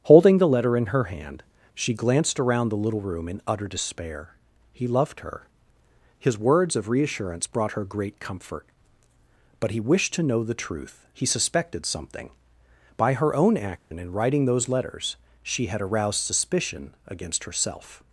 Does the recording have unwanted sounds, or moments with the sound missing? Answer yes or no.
yes